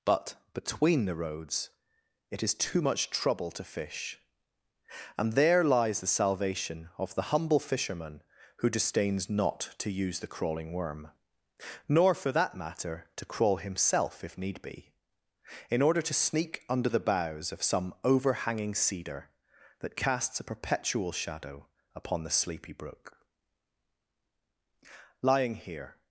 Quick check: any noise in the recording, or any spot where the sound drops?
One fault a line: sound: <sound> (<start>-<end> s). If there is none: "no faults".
no faults